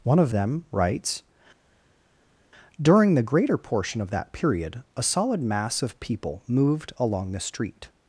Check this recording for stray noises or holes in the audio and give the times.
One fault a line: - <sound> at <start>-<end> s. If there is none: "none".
none